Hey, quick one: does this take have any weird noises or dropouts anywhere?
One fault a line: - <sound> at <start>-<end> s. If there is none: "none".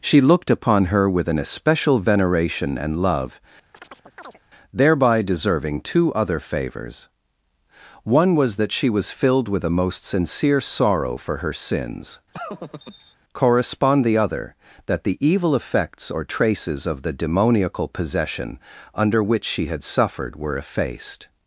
- chirp at 3.7-4.4 s
- laugh at 12.3-13.2 s